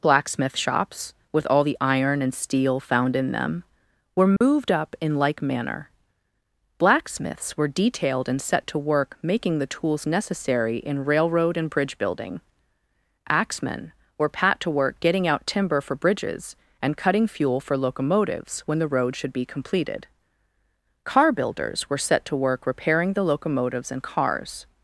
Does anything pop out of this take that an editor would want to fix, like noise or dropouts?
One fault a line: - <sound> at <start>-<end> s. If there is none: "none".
- dropout at 4.4-4.4 s